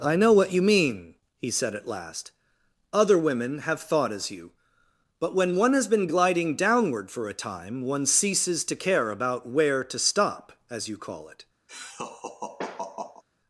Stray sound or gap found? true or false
true